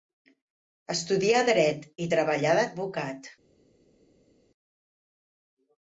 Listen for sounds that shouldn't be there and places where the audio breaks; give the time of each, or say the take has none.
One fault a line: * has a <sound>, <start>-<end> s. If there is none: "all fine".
all fine